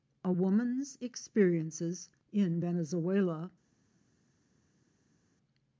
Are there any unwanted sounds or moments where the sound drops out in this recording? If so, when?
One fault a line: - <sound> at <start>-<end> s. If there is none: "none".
none